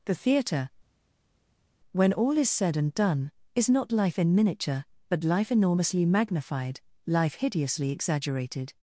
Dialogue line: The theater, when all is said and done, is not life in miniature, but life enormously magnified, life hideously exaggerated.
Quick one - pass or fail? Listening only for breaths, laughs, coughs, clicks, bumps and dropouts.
pass